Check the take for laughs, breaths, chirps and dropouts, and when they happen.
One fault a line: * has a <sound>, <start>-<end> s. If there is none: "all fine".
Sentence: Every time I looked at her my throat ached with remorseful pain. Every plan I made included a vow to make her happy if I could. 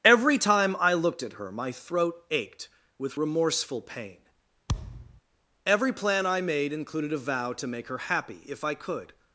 * has a thud, 4.7-5.2 s